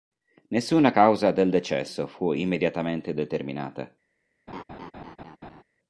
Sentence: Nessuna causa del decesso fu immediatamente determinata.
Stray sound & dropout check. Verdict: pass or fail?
fail